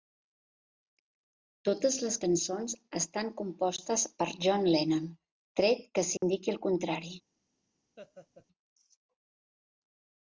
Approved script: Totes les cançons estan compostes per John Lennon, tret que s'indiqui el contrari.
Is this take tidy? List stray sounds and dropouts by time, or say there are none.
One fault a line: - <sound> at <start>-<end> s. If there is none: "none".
- dropout at 6.2-6.2 s
- laugh at 8.0-8.5 s